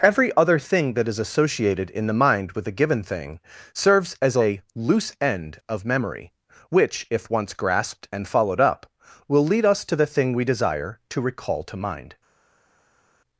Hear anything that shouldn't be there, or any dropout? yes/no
no